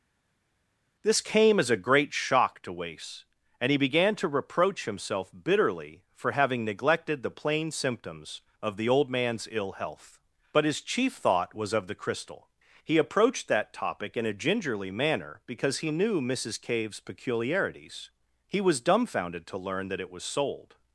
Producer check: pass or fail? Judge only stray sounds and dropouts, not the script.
pass